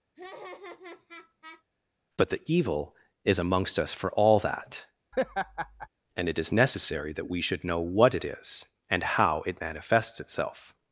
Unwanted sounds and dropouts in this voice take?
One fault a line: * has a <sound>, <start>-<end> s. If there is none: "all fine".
* has a laugh, 0.1-1.6 s
* has a laugh, 5.1-5.9 s